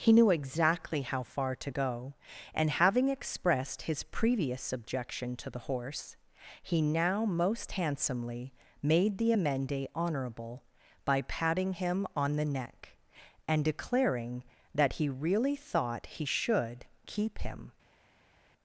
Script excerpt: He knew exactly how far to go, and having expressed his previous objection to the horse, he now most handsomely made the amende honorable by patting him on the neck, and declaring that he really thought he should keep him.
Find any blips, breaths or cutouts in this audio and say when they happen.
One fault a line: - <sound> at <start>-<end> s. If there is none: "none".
none